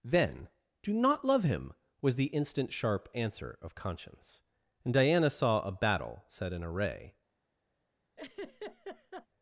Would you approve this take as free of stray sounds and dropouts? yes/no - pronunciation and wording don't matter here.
no